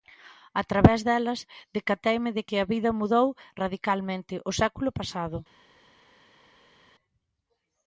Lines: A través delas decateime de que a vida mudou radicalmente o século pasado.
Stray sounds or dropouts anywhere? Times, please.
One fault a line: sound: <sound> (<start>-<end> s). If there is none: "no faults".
no faults